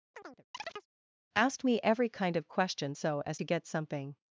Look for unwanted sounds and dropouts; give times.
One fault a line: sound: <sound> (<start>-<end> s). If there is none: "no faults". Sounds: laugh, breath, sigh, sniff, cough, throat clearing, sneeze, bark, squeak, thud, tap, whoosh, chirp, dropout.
sound: chirp (0.1-0.9 s)